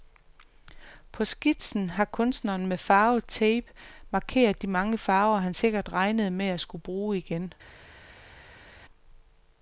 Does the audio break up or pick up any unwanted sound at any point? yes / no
no